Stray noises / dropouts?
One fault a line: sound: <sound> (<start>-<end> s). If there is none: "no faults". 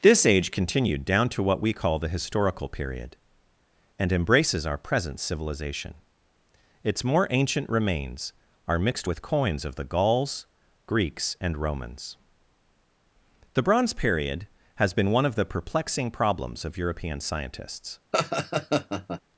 sound: laugh (18.1-19.2 s)